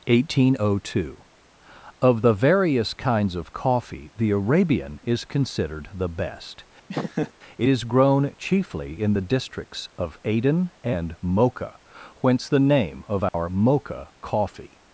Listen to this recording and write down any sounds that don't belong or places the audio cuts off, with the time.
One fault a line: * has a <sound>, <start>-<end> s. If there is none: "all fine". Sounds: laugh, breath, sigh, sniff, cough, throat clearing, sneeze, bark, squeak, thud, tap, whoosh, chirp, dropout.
* has a laugh, 6.9-7.3 s
* has a dropout, 13.3-13.3 s